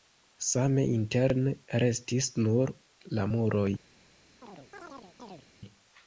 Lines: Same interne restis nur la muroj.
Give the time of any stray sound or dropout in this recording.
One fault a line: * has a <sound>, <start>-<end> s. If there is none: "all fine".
* has a chirp, 4.4-5.5 s